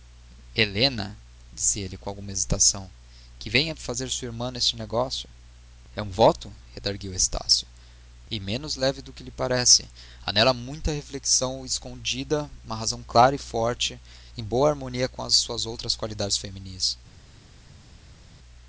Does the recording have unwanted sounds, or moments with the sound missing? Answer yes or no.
no